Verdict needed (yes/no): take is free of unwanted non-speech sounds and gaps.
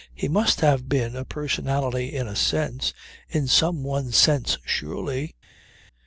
yes